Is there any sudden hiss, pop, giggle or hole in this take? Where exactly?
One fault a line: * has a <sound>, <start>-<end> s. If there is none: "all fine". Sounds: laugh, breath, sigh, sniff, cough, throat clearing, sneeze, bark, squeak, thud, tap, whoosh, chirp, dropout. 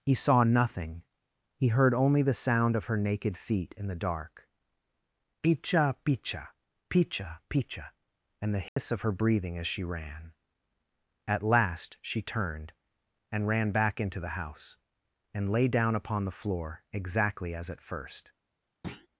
* has a dropout, 8.7-8.8 s
* has a thud, 18.8-19.1 s